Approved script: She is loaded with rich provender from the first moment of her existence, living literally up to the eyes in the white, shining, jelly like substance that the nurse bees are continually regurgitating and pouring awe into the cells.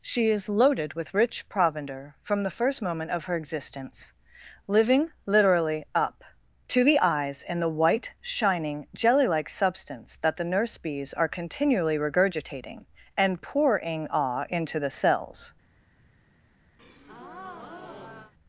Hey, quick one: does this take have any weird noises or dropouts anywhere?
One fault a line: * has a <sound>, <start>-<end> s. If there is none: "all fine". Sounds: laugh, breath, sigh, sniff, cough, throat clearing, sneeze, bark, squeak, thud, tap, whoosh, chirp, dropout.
* has a breath, 16.8-18.3 s